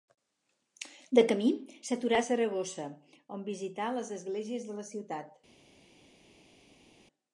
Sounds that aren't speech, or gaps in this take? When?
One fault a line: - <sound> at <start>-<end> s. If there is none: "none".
none